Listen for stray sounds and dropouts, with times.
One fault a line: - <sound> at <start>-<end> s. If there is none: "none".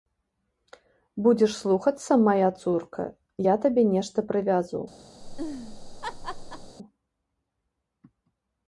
- laugh at 5.2-6.8 s